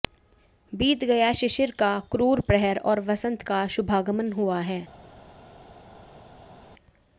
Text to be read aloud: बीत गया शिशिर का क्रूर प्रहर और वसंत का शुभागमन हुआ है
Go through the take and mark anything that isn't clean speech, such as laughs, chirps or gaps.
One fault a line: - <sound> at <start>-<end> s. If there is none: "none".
none